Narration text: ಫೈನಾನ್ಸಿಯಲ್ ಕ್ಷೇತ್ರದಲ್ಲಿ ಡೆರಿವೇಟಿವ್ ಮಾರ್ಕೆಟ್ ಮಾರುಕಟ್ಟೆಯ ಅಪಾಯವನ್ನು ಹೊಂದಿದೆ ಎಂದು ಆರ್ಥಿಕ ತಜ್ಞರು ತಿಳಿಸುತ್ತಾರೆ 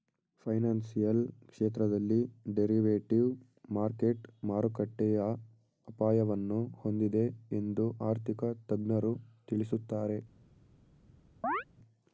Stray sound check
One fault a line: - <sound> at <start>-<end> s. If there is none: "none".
- chirp at 11.4-11.6 s